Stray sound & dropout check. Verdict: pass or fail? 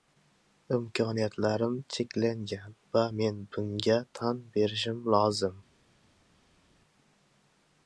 pass